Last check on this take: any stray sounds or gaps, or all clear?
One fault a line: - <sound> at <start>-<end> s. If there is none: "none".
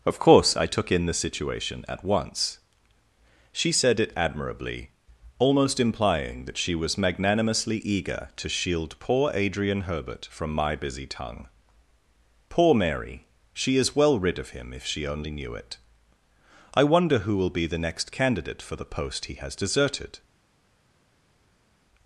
none